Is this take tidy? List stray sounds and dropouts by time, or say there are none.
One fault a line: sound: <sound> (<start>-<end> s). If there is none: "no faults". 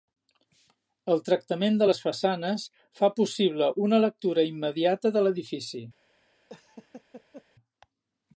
sound: laugh (6.5-7.4 s)